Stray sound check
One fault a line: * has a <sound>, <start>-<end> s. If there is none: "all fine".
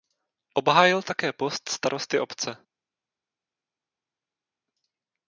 all fine